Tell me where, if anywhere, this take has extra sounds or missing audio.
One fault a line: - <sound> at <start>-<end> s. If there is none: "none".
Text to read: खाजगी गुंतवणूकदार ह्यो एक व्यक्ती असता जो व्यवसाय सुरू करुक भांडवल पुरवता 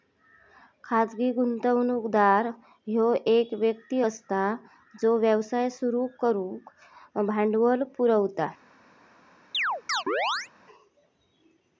- chirp at 9.5-10.5 s